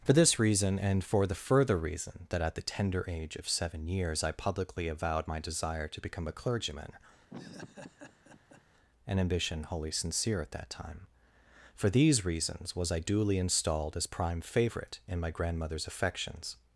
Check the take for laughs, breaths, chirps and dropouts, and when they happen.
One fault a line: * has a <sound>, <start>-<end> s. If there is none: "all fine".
* has a laugh, 7.3-8.6 s